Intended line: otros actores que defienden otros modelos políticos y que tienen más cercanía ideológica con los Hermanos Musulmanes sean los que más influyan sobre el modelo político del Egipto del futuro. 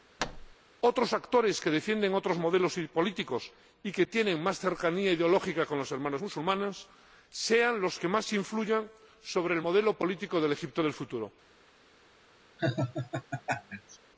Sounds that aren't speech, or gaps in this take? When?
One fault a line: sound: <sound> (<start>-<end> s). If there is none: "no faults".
sound: thud (0.2-0.6 s)
sound: laugh (12.6-14.0 s)